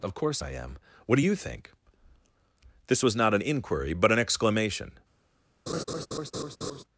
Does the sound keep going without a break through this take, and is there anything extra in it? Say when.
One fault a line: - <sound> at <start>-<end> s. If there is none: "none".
- laugh at 5.7-6.8 s